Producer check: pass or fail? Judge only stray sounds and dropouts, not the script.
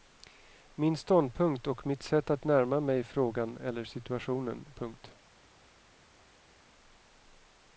pass